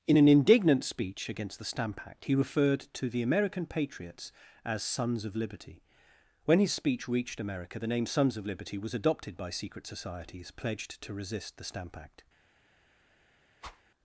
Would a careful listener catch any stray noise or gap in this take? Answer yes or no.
yes